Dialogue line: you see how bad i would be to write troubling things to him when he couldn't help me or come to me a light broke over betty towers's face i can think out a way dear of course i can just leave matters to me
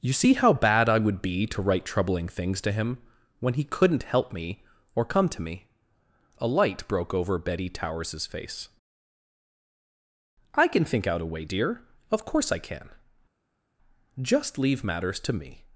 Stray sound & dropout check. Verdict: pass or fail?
pass